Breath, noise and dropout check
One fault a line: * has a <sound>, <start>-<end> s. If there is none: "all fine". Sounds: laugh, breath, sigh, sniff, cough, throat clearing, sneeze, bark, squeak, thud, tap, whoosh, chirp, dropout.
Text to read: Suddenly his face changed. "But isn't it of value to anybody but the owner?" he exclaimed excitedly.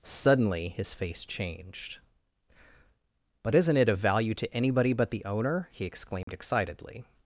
* has a dropout, 6.2-6.3 s